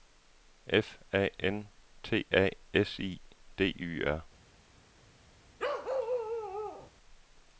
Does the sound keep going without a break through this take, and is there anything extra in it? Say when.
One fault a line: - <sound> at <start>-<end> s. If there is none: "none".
- bark at 5.6-6.9 s